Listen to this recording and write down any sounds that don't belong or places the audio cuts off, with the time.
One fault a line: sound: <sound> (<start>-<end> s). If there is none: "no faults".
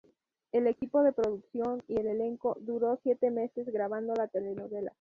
sound: dropout (0.8-0.8 s)